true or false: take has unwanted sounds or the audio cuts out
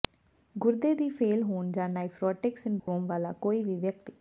true